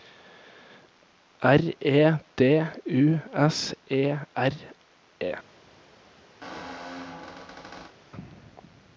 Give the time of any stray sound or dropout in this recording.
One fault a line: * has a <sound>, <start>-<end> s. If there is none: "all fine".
* has a squeak, 6.4-7.9 s